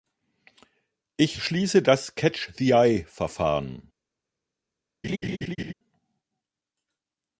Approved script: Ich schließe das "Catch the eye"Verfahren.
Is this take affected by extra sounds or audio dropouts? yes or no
yes